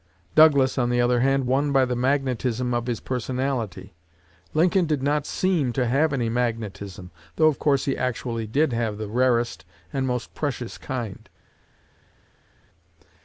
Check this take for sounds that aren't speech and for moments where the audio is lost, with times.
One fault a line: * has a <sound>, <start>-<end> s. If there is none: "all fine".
all fine